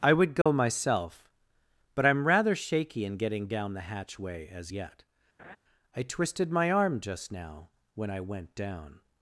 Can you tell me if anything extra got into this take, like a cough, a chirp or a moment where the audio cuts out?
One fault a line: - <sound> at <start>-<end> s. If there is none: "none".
- dropout at 0.4-0.5 s
- laugh at 5.4-5.6 s